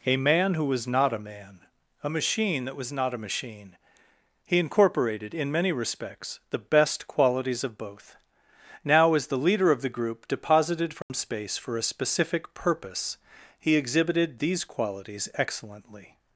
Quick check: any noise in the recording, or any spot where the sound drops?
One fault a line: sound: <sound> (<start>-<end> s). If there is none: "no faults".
sound: dropout (11.0-11.1 s)